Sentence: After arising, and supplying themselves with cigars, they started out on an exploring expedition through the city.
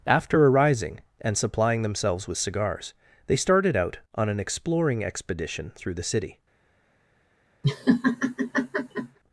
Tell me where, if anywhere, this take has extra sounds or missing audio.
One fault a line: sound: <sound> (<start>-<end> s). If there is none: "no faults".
sound: laugh (7.6-9.2 s)